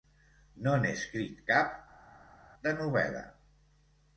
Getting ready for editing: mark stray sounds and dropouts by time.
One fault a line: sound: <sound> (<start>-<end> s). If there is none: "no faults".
no faults